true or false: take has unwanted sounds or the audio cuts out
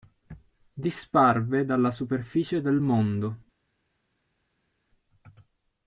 false